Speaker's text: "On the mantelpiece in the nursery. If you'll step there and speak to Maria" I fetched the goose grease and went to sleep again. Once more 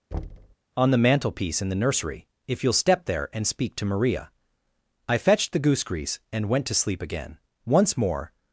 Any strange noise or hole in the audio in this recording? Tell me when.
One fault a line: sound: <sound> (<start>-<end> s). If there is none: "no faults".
sound: thud (0.1-0.6 s)